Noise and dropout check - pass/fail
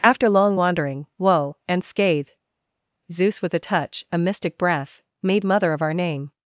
pass